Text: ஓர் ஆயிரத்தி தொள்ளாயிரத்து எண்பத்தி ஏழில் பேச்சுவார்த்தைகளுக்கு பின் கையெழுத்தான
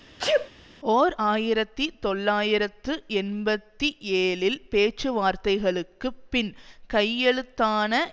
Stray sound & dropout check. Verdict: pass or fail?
fail